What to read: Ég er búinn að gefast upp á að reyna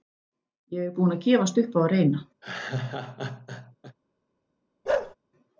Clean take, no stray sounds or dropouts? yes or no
no